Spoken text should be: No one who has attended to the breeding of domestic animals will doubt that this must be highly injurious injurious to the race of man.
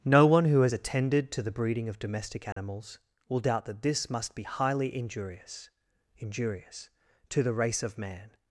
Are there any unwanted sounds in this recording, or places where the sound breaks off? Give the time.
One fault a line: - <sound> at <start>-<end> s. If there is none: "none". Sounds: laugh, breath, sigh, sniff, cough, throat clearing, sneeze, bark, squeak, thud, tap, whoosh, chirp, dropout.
- dropout at 2.5-2.6 s